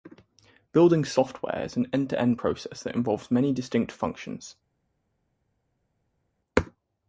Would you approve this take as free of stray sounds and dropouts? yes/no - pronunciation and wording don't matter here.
yes